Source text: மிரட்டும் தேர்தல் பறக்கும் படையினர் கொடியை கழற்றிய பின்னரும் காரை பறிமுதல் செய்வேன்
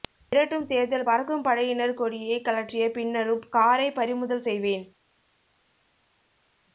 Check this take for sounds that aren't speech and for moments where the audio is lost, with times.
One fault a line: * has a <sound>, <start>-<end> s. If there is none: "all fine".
all fine